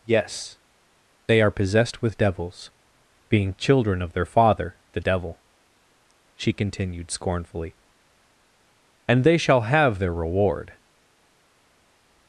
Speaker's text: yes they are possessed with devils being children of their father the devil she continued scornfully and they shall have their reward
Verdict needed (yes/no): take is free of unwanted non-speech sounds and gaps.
yes